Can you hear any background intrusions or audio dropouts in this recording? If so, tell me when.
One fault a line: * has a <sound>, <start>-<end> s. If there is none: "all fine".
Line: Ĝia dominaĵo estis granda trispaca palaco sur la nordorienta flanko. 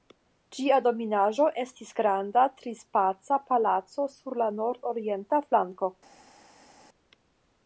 all fine